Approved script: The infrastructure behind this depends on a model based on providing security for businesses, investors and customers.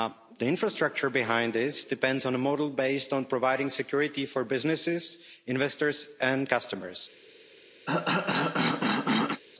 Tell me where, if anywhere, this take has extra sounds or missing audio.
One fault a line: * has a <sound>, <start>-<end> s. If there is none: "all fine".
* has a cough, 7.9-9.4 s